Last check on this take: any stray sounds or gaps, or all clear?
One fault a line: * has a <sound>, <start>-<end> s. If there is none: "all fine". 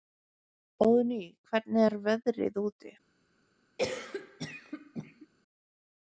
* has a cough, 3.8-5.3 s